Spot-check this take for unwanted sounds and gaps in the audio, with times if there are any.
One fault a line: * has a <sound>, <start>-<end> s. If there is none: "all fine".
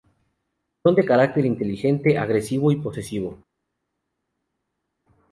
all fine